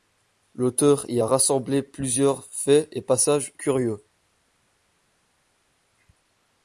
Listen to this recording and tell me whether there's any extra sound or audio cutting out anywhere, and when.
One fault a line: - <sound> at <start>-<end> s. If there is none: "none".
none